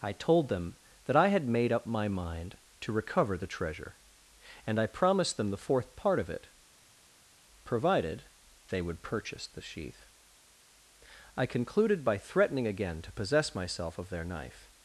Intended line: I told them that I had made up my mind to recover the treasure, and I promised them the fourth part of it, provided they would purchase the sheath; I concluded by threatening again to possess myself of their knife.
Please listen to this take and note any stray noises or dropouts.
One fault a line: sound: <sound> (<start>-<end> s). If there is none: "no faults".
no faults